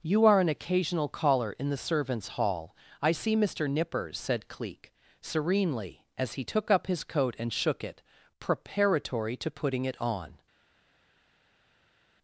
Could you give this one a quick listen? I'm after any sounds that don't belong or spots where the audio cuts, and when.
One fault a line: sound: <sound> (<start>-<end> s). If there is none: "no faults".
no faults